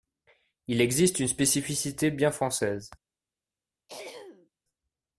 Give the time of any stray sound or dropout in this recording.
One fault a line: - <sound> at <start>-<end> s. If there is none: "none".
- throat clearing at 3.9-4.5 s